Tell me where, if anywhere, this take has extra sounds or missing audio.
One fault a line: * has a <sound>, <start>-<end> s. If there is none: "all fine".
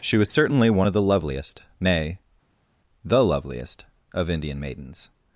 all fine